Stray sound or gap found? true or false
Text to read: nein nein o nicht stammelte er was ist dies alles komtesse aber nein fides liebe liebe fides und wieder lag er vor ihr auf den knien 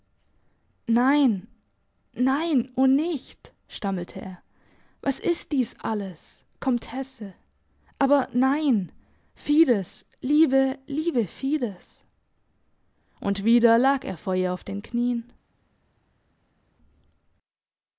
false